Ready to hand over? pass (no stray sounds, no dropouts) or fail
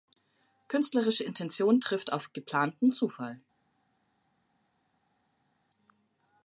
pass